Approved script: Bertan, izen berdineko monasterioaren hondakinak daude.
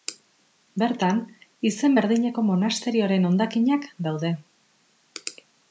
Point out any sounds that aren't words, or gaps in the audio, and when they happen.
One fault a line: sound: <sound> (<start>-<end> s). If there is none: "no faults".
no faults